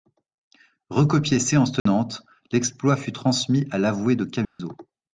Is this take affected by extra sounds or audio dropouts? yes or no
yes